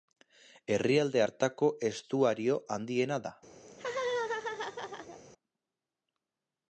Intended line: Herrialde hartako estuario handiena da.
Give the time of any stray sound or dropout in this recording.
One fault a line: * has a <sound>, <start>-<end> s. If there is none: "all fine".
* has a laugh, 3.7-5.2 s